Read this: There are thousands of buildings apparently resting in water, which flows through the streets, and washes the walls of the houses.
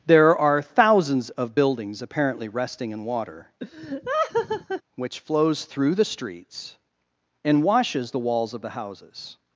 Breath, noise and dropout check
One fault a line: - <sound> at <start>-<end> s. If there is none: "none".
- laugh at 3.6-4.8 s